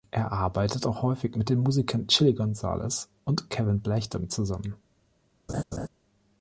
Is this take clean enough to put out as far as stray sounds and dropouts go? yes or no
no